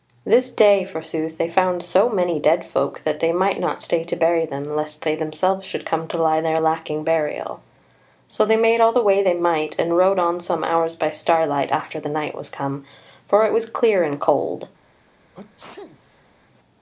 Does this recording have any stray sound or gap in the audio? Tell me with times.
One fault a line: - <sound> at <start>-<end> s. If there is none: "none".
- sneeze at 15.3-16.3 s